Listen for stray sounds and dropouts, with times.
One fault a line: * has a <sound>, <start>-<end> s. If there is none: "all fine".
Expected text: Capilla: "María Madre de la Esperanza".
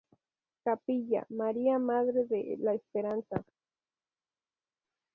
all fine